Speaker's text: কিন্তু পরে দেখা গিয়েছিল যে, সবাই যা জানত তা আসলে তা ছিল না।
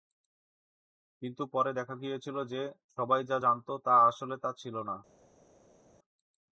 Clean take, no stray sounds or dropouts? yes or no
yes